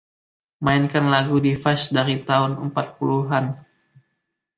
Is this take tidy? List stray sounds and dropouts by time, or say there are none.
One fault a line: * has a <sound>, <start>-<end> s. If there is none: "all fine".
all fine